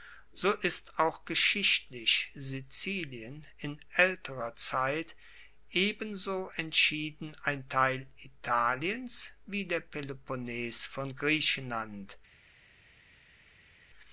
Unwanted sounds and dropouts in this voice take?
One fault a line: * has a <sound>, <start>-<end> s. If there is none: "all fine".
all fine